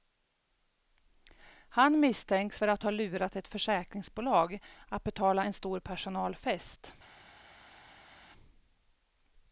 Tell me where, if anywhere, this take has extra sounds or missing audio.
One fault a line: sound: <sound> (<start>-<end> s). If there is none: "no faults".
no faults